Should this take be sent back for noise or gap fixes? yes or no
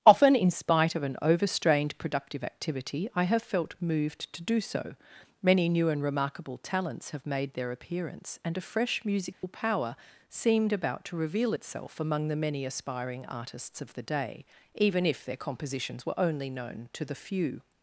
yes